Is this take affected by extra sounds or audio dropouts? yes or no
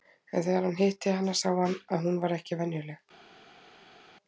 no